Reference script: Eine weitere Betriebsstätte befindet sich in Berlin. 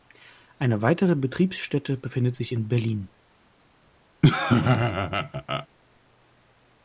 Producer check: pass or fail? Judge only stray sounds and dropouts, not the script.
fail